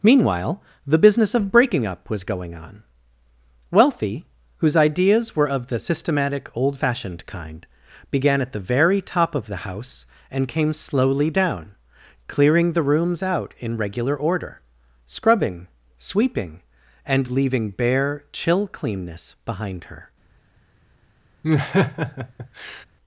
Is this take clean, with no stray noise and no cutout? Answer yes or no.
no